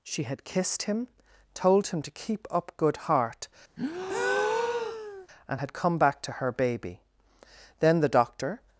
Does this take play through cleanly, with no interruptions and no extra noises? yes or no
no